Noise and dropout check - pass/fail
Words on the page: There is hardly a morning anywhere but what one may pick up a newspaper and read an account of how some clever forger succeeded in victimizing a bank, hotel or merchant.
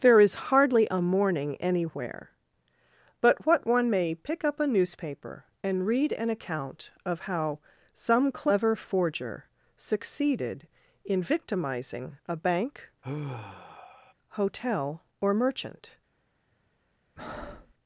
fail